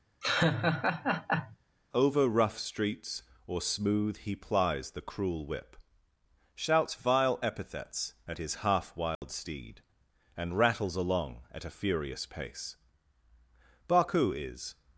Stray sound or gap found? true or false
true